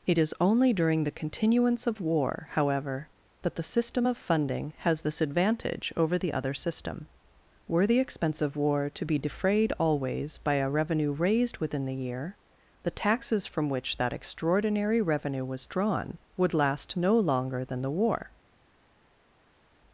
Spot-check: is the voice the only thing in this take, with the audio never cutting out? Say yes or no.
yes